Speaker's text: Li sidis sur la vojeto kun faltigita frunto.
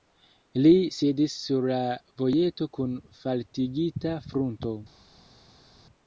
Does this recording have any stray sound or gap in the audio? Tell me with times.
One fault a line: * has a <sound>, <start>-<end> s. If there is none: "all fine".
all fine